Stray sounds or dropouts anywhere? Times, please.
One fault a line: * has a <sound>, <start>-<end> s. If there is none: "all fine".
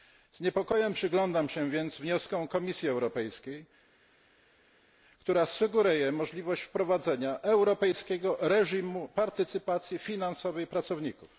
all fine